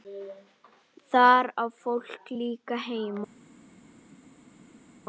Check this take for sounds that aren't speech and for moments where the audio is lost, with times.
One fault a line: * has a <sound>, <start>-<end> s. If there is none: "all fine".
all fine